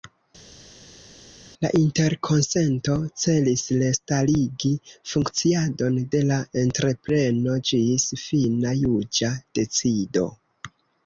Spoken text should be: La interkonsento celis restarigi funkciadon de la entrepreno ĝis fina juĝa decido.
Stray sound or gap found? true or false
false